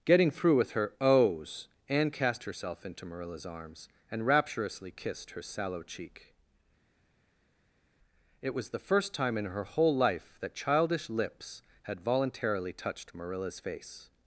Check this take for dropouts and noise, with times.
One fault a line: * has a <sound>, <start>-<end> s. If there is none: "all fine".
all fine